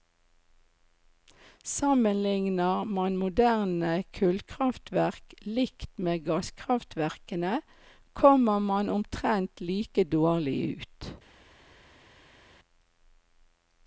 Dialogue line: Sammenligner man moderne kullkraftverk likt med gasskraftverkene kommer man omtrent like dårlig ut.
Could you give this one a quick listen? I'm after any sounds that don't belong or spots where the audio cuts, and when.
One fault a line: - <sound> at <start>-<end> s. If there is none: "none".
none